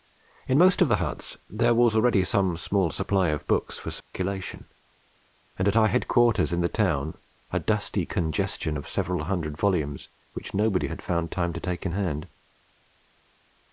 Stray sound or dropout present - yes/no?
yes